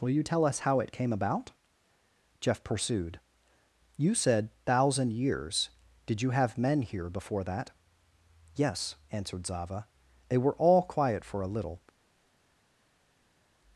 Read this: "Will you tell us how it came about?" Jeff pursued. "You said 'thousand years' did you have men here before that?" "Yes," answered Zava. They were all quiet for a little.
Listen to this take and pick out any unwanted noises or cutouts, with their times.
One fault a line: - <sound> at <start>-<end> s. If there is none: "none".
none